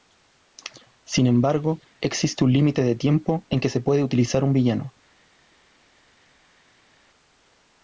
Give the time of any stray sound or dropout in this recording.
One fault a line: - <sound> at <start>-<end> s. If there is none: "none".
none